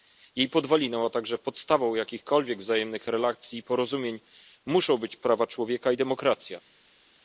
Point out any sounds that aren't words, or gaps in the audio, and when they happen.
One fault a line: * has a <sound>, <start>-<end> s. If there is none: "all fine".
all fine